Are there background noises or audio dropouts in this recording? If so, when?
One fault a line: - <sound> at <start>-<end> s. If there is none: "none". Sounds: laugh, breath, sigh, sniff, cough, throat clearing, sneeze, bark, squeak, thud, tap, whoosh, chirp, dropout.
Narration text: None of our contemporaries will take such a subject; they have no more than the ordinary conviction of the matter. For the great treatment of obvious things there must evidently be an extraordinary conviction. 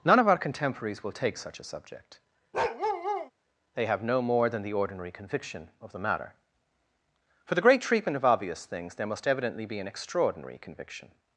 - bark at 2.5-3.3 s